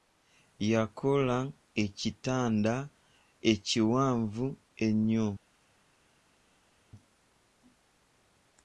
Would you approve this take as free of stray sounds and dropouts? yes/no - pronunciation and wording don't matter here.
yes